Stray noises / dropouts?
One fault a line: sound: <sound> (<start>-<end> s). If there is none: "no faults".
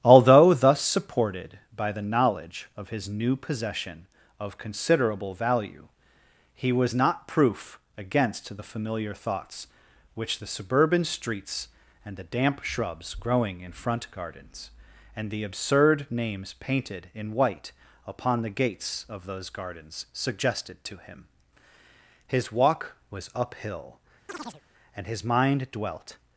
sound: chirp (24.3-24.6 s)